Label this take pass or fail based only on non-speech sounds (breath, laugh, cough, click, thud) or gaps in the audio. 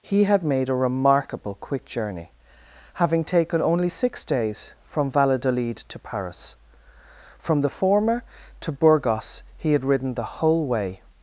pass